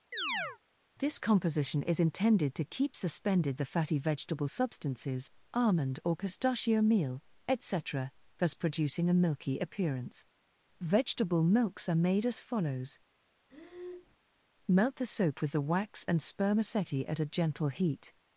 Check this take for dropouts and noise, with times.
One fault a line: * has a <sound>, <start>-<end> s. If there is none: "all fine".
* has a chirp, 0.1-0.6 s
* has a breath, 13.5-14.2 s